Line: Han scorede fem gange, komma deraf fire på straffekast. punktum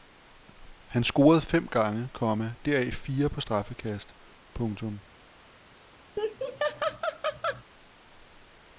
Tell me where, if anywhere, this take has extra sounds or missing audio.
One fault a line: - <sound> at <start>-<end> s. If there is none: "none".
- laugh at 6.2-7.6 s